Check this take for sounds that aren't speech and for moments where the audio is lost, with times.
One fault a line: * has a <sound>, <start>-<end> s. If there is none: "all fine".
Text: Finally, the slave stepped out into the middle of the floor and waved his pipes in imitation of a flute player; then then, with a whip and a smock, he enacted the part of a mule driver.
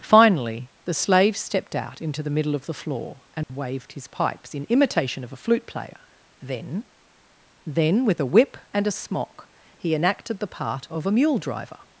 * has a dropout, 3.4-3.5 s